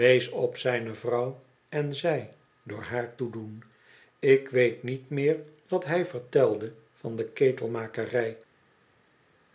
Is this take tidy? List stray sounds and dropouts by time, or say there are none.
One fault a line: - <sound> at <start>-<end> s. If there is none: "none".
none